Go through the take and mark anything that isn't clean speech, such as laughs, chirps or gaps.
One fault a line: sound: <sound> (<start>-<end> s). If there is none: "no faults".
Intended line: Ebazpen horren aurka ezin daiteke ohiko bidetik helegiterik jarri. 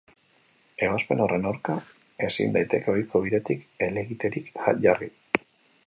no faults